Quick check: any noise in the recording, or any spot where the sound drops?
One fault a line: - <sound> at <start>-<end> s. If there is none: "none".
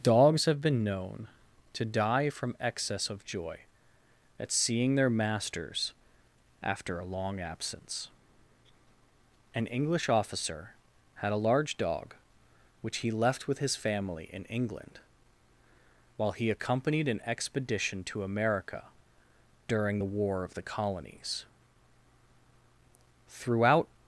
none